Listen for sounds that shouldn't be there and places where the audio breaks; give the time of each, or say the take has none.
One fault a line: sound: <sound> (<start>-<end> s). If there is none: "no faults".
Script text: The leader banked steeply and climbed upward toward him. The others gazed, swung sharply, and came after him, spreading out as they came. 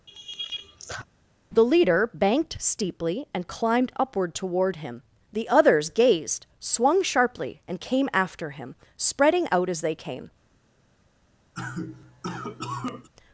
sound: laugh (0.1-1.1 s)
sound: cough (11.5-13.1 s)